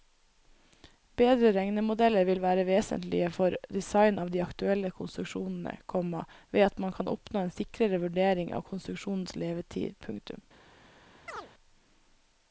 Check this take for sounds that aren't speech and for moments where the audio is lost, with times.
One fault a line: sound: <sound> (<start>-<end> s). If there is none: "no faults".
sound: chirp (11.3-11.5 s)